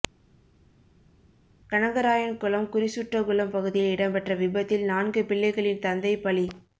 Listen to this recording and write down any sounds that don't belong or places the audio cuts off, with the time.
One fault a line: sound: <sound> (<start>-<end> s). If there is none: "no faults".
no faults